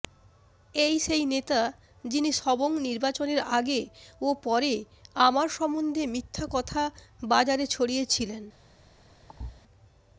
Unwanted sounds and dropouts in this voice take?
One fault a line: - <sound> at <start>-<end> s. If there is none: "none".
- thud at 9.3-9.6 s